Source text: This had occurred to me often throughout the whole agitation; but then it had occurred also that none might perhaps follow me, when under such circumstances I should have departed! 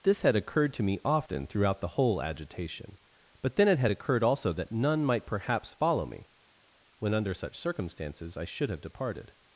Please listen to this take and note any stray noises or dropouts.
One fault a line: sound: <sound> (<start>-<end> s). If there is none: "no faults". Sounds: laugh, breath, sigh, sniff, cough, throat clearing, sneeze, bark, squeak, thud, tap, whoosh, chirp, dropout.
no faults